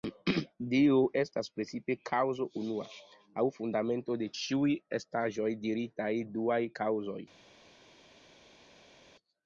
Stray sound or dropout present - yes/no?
no